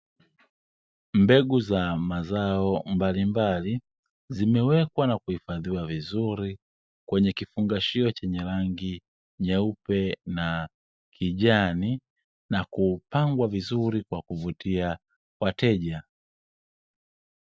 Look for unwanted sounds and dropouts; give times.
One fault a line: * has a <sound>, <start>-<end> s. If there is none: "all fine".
all fine